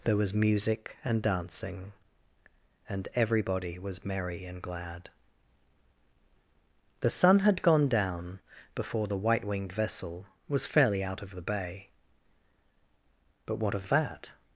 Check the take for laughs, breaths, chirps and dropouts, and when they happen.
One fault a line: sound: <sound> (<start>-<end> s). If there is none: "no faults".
no faults